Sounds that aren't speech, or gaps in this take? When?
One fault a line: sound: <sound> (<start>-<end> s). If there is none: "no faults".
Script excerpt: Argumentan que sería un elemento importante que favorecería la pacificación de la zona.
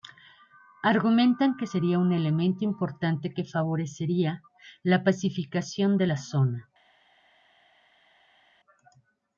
no faults